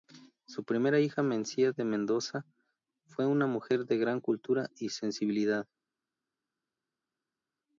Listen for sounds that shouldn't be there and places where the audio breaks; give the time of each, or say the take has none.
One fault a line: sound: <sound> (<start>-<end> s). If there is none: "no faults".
no faults